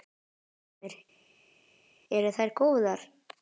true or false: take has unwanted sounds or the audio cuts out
false